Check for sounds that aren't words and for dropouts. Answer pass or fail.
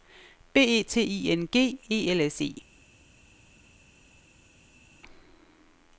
pass